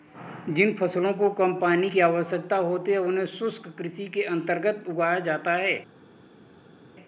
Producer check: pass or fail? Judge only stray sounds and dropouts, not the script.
pass